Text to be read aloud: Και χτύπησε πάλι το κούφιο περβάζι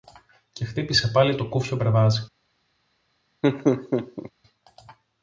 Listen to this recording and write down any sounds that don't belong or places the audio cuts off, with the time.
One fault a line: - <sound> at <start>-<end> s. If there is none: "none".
- laugh at 3.4-4.3 s